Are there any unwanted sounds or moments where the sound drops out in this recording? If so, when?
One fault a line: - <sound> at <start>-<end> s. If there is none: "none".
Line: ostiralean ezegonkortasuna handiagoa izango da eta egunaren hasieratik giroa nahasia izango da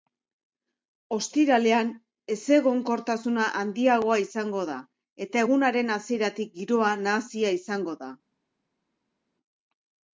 none